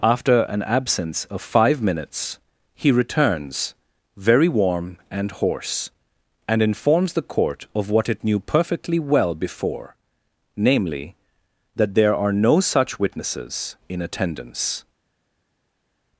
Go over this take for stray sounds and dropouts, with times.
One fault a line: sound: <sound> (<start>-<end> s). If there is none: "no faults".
no faults